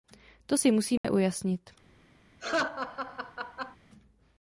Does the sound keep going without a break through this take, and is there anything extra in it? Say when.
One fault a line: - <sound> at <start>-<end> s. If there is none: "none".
- dropout at 1.0-1.0 s
- laugh at 2.4-3.8 s